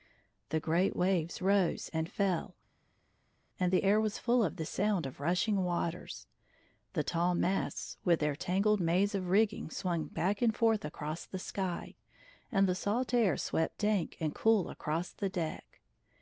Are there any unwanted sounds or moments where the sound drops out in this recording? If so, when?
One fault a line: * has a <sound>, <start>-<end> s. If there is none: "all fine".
all fine